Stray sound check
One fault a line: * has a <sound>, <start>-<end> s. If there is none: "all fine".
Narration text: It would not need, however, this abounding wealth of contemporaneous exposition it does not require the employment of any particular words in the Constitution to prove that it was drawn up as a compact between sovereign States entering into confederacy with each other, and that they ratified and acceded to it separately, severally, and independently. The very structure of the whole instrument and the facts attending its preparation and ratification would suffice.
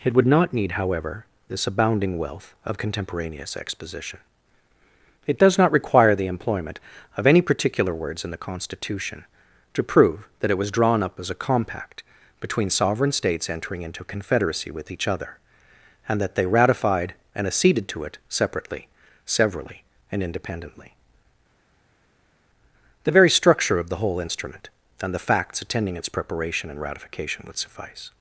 all fine